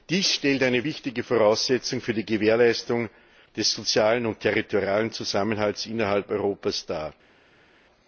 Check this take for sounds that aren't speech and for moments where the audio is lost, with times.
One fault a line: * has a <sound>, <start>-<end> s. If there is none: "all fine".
all fine